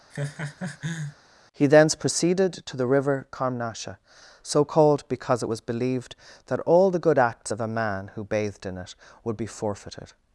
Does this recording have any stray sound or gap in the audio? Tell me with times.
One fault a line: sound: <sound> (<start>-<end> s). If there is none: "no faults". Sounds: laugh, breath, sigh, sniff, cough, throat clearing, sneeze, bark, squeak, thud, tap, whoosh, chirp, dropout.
sound: laugh (0.1-1.2 s)